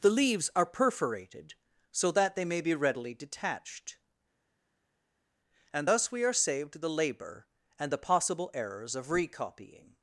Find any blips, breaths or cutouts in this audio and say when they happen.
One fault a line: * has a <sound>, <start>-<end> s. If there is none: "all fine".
all fine